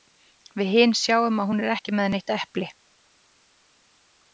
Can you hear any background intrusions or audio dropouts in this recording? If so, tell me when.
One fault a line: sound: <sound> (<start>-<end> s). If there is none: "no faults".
no faults